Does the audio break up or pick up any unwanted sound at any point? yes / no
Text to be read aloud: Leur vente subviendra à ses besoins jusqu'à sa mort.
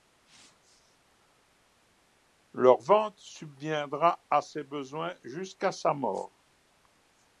no